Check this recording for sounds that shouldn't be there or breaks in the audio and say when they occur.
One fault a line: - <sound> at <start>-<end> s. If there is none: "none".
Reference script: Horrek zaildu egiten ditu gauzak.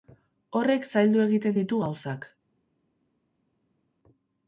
none